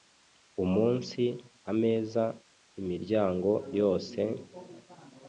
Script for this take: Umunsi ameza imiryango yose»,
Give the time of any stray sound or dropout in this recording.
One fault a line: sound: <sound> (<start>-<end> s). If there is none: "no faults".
no faults